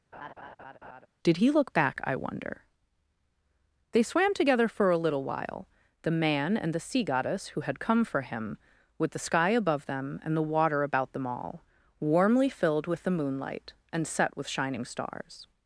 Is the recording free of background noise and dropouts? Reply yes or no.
no